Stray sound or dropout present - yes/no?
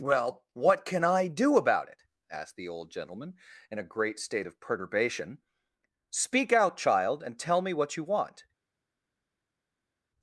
no